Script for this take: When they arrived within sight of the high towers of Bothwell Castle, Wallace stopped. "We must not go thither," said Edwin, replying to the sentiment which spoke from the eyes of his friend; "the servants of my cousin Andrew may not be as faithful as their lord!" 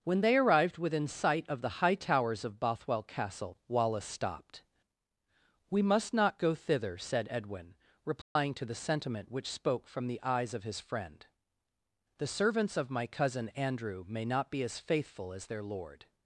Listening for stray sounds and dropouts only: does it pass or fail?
fail